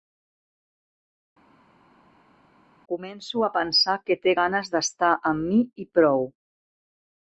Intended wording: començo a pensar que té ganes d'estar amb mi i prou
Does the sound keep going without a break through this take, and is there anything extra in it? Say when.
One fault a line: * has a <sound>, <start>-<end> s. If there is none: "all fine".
all fine